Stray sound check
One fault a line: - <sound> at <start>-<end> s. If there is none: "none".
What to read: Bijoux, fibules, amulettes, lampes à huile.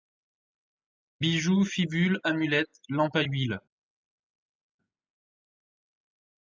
none